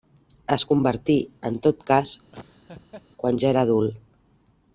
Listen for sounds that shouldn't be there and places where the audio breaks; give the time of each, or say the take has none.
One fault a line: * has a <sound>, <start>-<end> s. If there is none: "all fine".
* has a laugh, 2.3-3.0 s